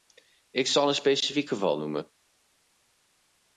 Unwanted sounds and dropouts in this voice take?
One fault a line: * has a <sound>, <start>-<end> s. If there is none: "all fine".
all fine